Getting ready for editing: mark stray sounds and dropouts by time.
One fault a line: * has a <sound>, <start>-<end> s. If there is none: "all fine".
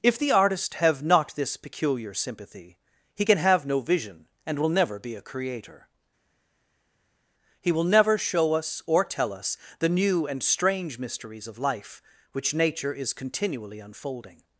all fine